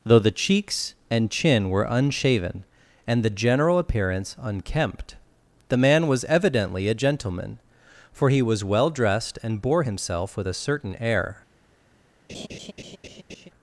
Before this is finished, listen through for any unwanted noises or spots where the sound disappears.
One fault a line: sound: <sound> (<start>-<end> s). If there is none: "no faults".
sound: laugh (12.3-13.5 s)